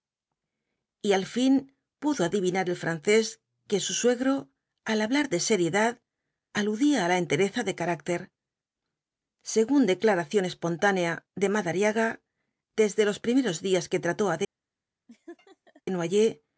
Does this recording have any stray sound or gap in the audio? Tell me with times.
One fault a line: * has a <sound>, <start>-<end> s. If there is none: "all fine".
* has a laugh, 15.1-15.8 s